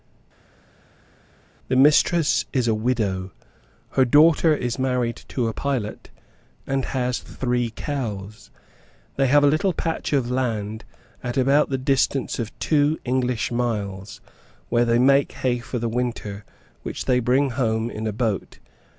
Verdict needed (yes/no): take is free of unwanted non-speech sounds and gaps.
yes